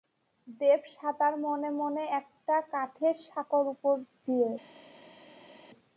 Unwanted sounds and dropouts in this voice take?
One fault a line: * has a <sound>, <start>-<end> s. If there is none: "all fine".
all fine